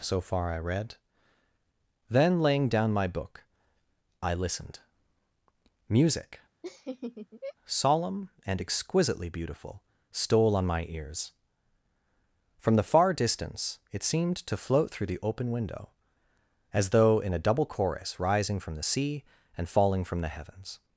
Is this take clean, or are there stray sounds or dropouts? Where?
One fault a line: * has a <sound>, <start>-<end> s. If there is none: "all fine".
* has a laugh, 6.6-7.5 s